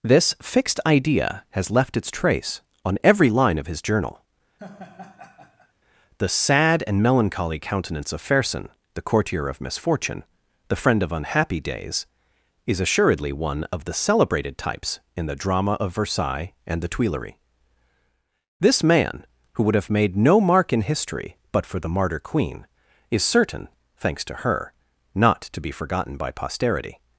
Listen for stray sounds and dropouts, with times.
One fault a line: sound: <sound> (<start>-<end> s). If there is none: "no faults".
sound: laugh (4.6-5.7 s)